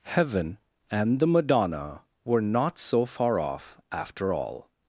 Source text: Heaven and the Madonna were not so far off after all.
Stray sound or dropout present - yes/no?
no